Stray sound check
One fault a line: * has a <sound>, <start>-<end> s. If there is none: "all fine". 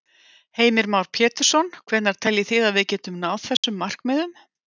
* has a dropout, 3.6-3.6 s